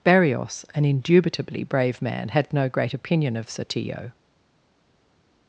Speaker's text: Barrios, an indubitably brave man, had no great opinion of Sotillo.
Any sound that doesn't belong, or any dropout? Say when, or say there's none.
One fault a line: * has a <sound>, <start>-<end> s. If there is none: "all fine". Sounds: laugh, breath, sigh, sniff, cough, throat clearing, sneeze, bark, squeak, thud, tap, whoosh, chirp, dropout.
all fine